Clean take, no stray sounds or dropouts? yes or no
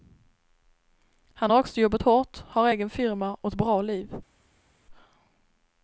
yes